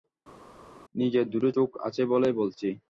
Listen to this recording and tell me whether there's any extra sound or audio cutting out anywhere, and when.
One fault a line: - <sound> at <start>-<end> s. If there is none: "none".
none